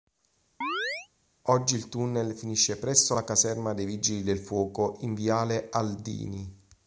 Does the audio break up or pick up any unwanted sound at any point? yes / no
yes